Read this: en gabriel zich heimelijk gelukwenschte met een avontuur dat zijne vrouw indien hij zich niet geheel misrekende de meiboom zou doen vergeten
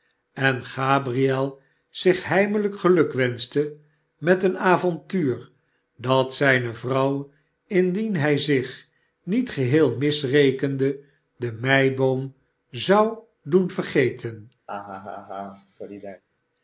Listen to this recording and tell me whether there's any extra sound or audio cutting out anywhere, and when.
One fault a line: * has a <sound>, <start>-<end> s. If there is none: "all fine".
* has a laugh, 14.7-16.2 s